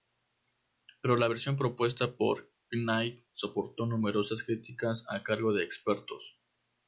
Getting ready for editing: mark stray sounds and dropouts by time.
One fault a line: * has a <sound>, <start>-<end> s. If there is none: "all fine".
all fine